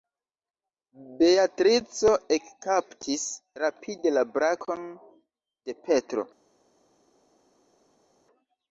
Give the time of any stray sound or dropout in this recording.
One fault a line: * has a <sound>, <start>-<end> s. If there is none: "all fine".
all fine